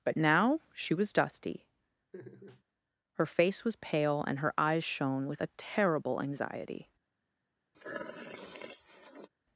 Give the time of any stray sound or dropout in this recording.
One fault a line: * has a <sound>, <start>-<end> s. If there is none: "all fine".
* has a laugh, 2.1-2.6 s
* has a sniff, 7.7-9.3 s